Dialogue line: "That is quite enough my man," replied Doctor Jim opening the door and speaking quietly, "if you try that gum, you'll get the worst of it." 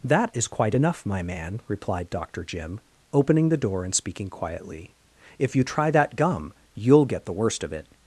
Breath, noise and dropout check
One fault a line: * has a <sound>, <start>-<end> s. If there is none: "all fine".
all fine